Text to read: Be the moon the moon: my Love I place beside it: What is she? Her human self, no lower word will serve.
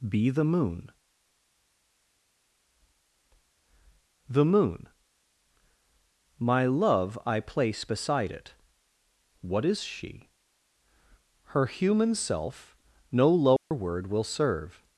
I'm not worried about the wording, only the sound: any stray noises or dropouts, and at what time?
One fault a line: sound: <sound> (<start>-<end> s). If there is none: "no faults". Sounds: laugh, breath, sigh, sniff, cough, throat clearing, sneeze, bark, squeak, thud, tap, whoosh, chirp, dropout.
sound: dropout (13.6-13.7 s)